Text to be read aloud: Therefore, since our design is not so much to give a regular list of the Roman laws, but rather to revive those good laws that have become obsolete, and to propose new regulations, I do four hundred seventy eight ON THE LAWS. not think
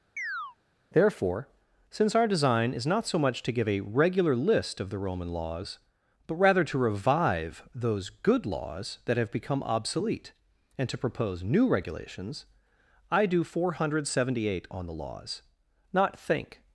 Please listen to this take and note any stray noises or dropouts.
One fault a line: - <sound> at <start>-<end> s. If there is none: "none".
- chirp at 0.2-0.6 s